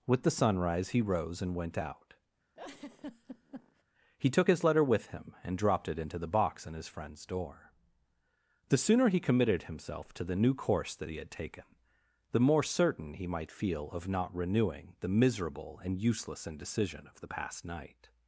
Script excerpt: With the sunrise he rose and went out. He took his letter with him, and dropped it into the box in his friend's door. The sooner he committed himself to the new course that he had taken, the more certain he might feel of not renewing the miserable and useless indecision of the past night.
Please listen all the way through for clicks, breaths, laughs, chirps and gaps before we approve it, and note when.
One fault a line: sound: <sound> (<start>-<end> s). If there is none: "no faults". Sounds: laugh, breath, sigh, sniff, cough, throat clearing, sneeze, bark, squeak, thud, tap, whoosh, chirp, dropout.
sound: laugh (2.6-3.8 s)